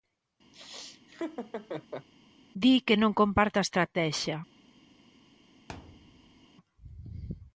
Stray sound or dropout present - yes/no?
yes